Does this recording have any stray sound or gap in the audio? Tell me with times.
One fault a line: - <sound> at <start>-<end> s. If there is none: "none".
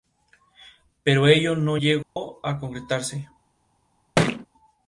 - dropout at 2.0-2.2 s
- thud at 4.2-4.5 s